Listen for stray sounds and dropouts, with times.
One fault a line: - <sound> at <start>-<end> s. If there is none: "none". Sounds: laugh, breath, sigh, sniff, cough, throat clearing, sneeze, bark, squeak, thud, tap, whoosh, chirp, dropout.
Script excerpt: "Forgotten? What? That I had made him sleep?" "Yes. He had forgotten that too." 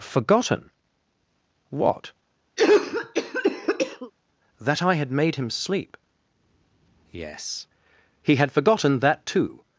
- cough at 2.6-4.1 s